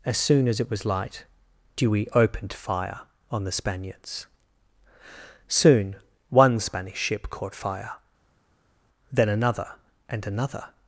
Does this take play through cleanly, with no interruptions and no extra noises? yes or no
yes